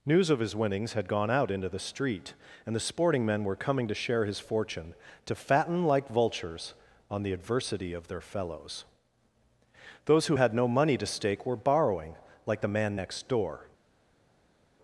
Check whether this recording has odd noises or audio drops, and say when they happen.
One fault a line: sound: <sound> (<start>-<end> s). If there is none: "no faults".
no faults